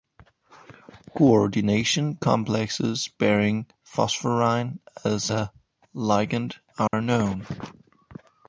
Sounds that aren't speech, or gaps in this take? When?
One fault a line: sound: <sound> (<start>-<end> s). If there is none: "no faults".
sound: dropout (6.9-6.9 s)